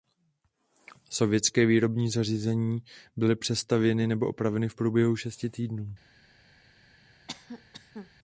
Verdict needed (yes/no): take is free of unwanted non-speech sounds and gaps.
no